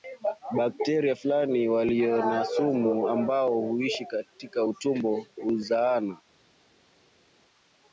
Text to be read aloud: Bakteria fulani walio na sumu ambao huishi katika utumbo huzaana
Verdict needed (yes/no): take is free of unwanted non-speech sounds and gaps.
yes